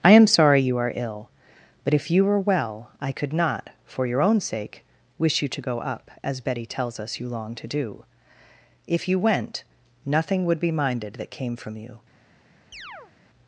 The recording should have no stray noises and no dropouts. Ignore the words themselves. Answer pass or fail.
fail